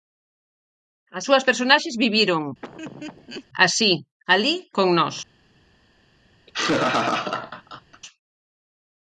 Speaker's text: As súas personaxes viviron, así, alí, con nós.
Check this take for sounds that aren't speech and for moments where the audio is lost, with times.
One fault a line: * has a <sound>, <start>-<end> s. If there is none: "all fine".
* has a laugh, 2.6-3.5 s
* has a laugh, 6.5-8.0 s